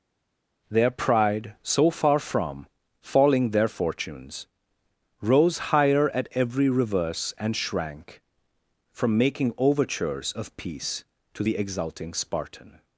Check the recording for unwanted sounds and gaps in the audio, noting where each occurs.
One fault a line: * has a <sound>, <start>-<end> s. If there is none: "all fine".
all fine